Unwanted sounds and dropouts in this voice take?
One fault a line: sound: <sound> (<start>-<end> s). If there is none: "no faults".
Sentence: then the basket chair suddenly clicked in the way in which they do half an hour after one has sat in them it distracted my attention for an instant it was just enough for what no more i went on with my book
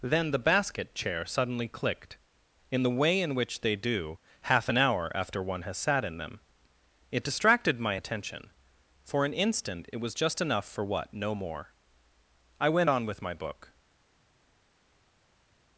no faults